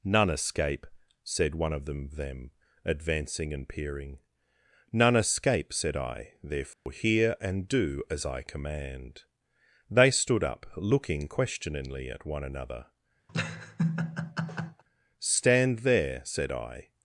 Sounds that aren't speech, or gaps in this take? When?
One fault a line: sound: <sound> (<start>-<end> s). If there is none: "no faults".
sound: dropout (6.7-6.9 s)
sound: laugh (13.3-14.8 s)